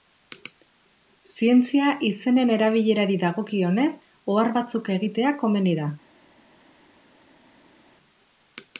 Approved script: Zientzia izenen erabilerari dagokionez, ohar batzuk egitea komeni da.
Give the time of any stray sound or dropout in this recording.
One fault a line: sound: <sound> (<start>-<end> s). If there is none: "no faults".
no faults